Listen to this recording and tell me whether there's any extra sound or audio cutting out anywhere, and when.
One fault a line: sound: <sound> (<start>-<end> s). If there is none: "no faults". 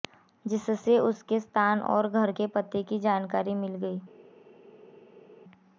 no faults